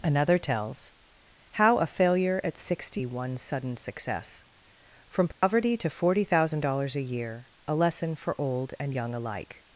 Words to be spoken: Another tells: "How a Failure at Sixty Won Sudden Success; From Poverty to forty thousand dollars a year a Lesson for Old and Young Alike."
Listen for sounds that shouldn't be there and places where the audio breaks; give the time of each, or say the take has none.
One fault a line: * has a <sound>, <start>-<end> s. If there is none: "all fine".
* has a dropout, 5.3-5.4 s